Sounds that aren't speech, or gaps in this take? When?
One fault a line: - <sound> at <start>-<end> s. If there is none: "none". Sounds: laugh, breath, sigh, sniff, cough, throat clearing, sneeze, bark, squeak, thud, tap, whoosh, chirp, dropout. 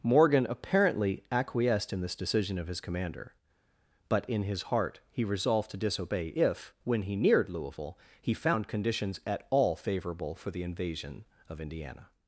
none